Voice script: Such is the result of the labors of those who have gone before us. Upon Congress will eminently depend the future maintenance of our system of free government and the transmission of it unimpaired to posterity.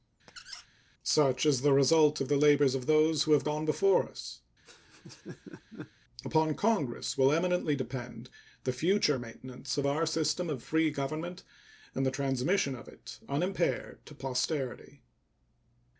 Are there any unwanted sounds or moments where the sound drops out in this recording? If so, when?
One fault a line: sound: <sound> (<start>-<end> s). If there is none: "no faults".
sound: squeak (0.3-0.7 s)
sound: laugh (4.7-5.9 s)